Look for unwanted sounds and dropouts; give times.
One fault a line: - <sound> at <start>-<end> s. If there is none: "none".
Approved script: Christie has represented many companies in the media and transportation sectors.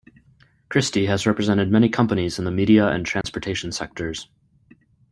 - dropout at 3.2-3.2 s